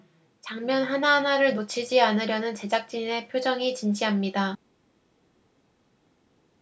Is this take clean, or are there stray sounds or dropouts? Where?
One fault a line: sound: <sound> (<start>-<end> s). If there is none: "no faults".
no faults